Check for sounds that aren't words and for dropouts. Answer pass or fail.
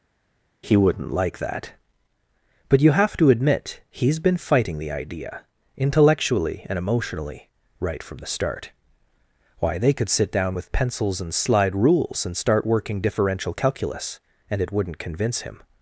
pass